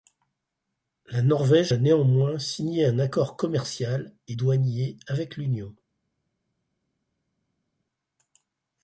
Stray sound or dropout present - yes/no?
no